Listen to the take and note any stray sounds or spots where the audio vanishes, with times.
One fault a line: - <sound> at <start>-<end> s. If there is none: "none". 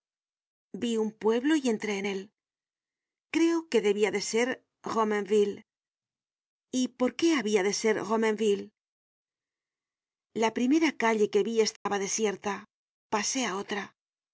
- dropout at 11.8-11.9 s